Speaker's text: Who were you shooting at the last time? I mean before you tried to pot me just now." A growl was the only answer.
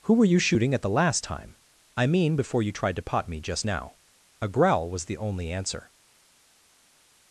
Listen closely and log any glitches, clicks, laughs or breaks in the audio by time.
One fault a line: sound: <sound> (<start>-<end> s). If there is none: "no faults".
no faults